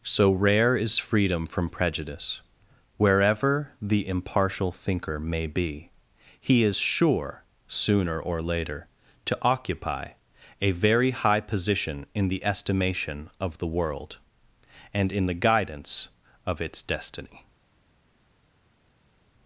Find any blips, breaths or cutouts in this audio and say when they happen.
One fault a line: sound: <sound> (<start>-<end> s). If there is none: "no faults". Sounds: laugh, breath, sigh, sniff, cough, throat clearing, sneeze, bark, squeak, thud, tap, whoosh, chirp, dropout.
no faults